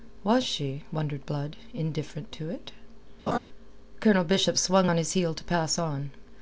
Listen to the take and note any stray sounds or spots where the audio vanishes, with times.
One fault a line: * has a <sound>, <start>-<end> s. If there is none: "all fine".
* has a laugh, 3.3-3.4 s